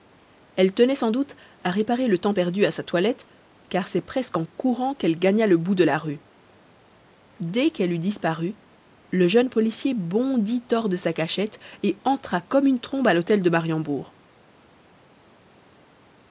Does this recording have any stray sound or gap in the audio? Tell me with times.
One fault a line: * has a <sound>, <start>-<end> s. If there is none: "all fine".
all fine